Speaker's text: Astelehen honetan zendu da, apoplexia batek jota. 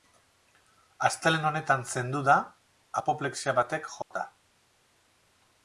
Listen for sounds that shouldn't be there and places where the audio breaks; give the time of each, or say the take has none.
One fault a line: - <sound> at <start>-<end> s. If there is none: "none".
- dropout at 4.0-4.1 s